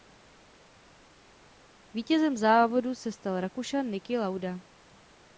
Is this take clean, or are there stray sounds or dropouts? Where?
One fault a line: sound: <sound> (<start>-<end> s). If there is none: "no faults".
no faults